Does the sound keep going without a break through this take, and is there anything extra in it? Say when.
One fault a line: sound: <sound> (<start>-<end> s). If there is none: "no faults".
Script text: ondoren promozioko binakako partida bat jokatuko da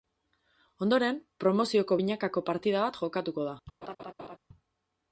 sound: laugh (3.8-4.4 s)